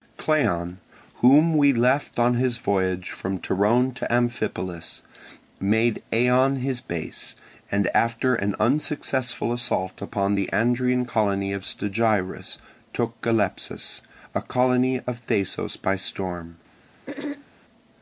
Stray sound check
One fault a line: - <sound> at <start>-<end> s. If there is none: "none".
- throat clearing at 17.1-17.5 s